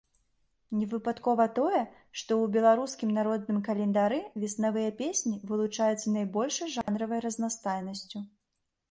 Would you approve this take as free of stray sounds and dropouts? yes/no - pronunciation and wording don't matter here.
no